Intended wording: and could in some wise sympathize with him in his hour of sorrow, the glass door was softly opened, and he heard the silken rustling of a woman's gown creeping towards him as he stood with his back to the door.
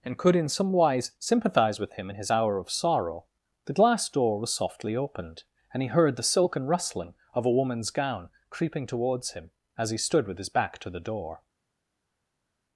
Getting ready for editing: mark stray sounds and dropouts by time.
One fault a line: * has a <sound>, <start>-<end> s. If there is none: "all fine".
all fine